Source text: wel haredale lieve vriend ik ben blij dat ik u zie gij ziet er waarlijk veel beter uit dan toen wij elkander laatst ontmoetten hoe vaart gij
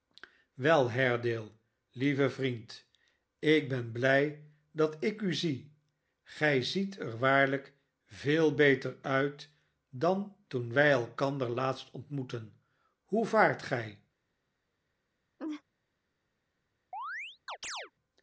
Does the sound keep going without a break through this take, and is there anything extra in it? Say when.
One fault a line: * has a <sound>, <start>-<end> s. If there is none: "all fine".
* has a laugh, 15.4-15.6 s
* has a chirp, 16.9-17.9 s